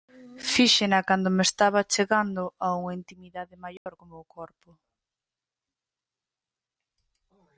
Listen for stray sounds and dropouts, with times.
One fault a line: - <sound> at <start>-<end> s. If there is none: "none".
- dropout at 3.8-3.9 s